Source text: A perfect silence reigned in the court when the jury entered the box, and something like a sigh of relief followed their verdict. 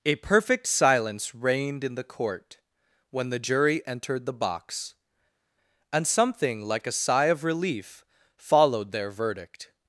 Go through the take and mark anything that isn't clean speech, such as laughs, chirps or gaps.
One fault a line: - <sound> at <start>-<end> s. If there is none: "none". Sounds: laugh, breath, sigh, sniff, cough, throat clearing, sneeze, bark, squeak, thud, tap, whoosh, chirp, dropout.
none